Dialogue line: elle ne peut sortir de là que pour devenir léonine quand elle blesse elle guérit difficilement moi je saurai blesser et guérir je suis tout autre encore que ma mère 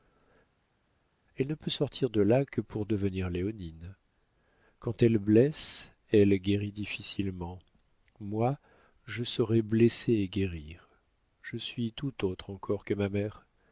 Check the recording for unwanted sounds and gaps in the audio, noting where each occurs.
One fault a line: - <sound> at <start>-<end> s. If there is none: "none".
none